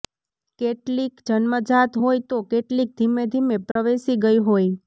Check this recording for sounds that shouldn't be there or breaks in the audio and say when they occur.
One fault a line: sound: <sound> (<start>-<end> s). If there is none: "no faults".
sound: dropout (3.7-3.8 s)